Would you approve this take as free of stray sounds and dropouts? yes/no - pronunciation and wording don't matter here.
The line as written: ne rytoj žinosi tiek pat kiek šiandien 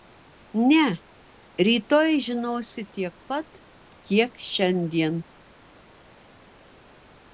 yes